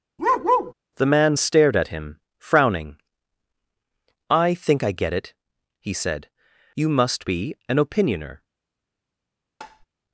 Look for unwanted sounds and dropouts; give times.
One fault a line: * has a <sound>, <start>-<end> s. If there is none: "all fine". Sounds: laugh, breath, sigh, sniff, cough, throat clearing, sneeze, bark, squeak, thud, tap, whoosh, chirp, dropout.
* has a bark, 0.2-0.7 s
* has a tap, 9.6-9.9 s